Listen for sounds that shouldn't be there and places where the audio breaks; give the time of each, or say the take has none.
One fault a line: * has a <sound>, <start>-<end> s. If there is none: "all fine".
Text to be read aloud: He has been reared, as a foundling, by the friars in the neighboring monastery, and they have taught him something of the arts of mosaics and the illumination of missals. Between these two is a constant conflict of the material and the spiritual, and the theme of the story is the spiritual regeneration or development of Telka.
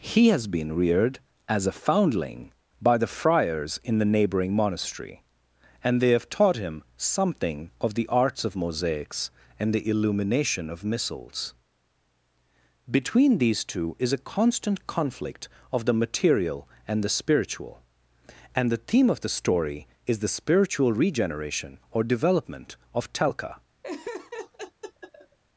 * has a laugh, 23.8-25.4 s